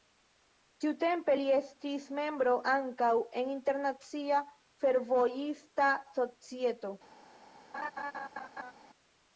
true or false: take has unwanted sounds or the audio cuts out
true